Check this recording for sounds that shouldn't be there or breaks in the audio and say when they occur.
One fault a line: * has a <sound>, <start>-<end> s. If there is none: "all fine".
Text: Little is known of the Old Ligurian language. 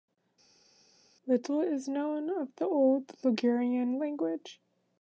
all fine